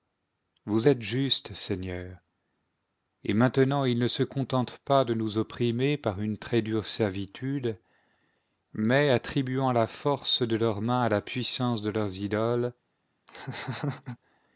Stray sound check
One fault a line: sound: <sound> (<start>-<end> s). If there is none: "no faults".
sound: laugh (13.3-14.2 s)